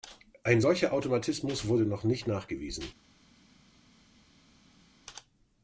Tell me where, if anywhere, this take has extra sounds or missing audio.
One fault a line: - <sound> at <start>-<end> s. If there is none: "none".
none